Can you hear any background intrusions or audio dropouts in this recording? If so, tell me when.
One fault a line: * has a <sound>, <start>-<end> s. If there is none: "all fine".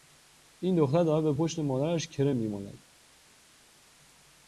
all fine